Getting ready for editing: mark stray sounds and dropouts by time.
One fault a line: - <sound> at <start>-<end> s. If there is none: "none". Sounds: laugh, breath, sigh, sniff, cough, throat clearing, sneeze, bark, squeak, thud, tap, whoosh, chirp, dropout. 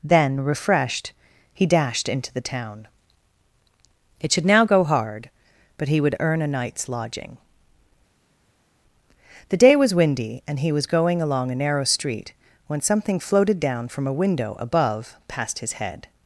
none